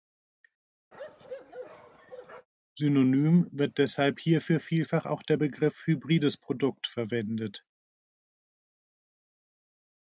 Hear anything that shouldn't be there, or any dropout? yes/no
yes